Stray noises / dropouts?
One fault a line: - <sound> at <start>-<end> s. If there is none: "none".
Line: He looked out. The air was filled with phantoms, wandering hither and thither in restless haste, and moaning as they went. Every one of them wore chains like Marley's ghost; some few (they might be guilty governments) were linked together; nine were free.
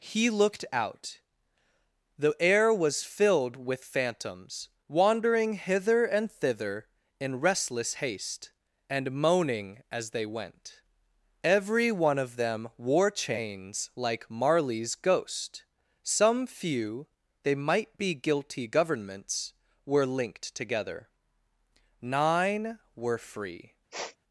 - sniff at 23.9-24.2 s